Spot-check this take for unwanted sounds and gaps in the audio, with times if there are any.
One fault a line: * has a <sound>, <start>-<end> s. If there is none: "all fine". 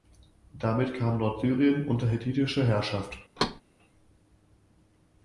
* has a thud, 3.4-3.6 s